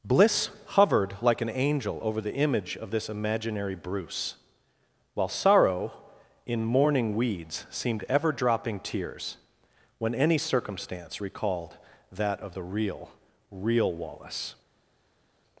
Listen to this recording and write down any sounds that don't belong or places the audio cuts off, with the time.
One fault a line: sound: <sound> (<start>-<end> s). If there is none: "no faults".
no faults